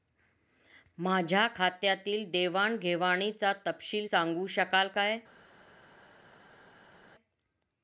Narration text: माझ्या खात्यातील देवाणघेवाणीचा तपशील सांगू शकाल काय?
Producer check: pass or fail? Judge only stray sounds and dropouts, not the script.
pass